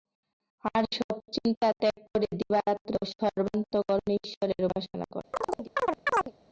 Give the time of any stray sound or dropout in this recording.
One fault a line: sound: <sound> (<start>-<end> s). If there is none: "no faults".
sound: chirp (5.3-6.3 s)